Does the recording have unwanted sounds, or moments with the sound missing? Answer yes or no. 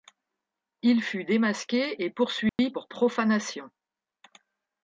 yes